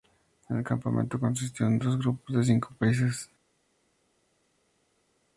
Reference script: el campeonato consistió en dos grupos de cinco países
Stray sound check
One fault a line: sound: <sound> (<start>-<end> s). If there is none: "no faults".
no faults